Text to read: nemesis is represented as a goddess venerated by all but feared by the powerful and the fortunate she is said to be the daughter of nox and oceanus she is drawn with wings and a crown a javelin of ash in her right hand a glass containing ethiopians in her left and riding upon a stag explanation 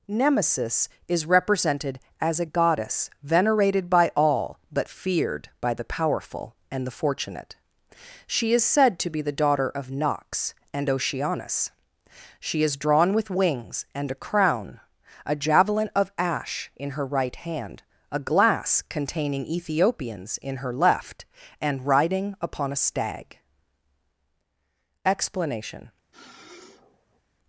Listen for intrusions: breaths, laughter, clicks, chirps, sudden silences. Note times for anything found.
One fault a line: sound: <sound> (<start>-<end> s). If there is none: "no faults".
sound: sniff (26.1-27.2 s)